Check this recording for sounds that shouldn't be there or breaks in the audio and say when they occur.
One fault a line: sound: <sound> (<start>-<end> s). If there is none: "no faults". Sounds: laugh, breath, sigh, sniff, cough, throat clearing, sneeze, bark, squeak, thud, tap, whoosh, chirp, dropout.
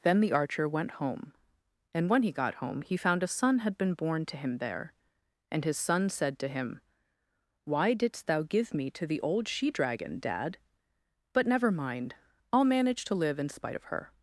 no faults